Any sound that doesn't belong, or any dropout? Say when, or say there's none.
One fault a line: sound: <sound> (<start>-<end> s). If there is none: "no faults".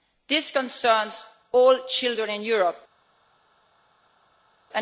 no faults